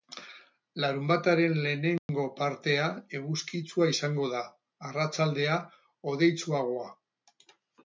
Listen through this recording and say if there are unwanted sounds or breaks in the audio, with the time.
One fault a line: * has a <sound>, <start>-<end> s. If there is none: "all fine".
* has a dropout, 2.0-2.1 s